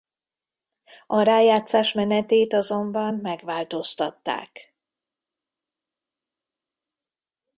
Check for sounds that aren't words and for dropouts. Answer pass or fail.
pass